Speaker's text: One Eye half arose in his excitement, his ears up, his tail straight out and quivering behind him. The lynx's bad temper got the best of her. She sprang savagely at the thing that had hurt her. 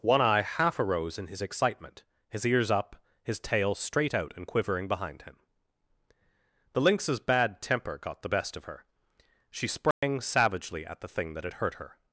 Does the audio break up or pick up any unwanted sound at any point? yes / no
yes